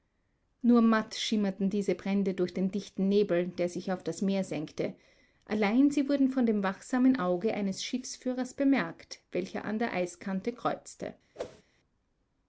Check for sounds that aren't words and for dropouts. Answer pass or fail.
fail